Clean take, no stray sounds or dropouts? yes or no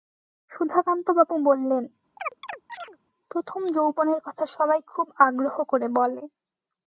no